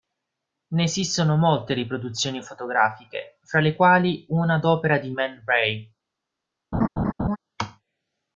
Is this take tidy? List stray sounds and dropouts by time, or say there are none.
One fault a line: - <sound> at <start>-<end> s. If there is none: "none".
- laugh at 6.7-7.4 s